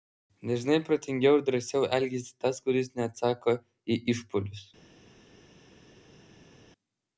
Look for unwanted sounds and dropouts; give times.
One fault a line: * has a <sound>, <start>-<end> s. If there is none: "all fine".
all fine